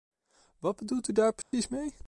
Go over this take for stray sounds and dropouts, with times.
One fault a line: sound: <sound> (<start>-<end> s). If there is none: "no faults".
sound: dropout (1.4-1.5 s)